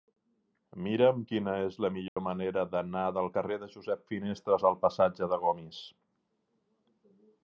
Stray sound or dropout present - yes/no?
yes